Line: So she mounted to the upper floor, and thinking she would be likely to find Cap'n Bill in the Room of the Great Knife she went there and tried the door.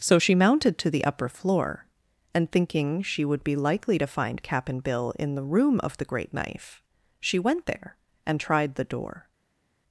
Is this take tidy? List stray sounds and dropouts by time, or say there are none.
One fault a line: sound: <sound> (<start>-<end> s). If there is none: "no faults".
no faults